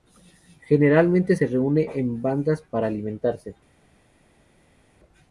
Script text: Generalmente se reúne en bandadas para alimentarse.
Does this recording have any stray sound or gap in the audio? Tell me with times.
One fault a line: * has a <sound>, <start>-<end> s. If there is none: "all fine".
all fine